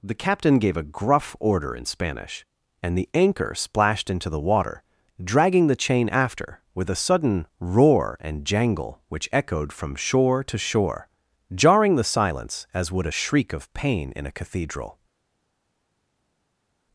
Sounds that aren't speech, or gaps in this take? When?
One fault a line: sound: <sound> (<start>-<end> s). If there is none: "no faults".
no faults